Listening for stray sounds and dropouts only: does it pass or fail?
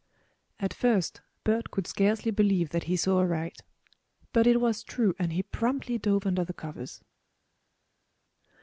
pass